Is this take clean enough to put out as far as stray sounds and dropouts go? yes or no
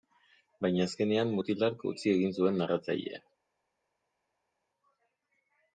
yes